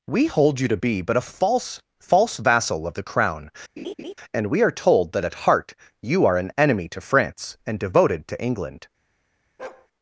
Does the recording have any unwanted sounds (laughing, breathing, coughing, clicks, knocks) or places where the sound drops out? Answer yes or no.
yes